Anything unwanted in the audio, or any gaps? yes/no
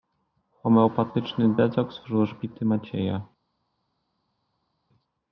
no